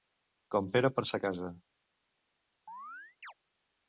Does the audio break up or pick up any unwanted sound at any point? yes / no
yes